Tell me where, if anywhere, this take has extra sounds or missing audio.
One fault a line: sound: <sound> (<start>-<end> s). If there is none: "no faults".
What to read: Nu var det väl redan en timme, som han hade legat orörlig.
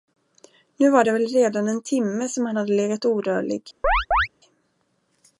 sound: chirp (3.8-4.3 s)